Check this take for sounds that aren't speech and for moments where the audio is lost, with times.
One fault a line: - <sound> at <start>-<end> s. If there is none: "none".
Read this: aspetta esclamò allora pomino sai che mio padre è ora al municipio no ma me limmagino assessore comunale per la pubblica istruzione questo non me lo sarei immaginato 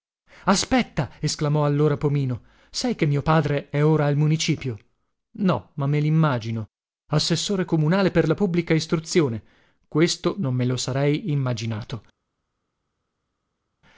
none